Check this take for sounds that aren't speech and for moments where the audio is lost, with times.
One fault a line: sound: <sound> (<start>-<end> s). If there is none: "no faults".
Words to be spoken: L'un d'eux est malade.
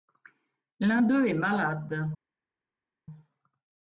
no faults